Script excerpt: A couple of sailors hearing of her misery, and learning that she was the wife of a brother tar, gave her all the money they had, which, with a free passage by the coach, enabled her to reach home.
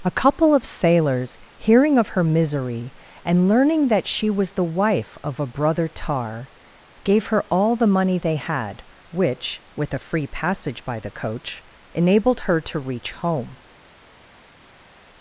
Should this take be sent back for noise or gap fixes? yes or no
no